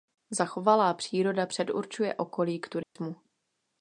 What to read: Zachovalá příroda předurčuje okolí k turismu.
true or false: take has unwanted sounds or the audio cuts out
true